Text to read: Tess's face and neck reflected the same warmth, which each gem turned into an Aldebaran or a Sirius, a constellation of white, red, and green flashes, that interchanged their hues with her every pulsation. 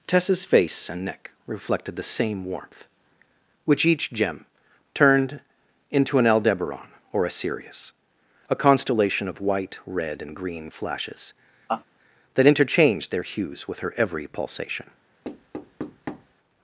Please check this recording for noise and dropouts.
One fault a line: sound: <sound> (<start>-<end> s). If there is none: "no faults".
sound: laugh (11.7-11.8 s)
sound: thud (15.2-16.3 s)